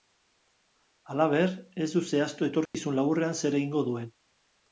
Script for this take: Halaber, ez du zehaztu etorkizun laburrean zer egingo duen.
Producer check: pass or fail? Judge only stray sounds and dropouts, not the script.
fail